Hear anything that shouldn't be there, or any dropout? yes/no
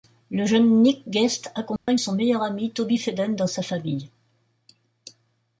yes